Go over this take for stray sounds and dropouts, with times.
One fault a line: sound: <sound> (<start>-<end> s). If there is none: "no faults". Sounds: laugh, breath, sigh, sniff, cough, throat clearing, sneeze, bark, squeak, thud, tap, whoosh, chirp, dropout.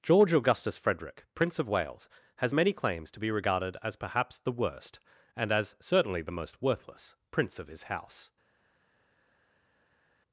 no faults